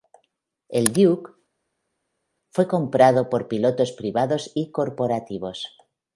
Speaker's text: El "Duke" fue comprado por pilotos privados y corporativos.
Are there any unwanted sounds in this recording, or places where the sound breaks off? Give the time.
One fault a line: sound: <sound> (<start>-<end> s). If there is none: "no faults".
no faults